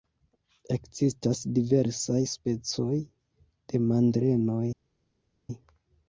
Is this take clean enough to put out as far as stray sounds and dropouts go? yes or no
yes